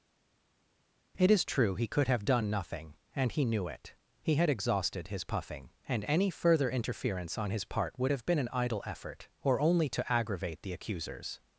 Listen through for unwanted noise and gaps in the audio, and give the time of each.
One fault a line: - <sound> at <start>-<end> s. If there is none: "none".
none